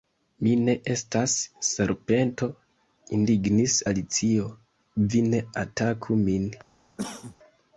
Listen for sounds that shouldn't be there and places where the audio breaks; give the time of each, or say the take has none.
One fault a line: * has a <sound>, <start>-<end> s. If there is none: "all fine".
* has a cough, 7.0-7.4 s